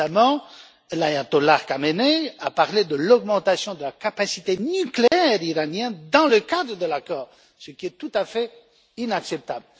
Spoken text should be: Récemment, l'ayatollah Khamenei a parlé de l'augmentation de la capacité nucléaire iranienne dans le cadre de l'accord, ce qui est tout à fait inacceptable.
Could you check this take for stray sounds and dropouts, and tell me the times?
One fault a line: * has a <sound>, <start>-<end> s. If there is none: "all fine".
* has a dropout, 5.1-5.1 s